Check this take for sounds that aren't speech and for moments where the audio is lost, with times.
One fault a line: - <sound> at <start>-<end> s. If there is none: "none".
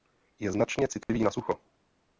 - dropout at 1.0-1.1 s